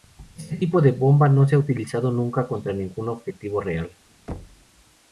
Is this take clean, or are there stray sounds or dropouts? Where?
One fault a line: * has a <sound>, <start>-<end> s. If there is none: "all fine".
* has a thud, 4.3-4.7 s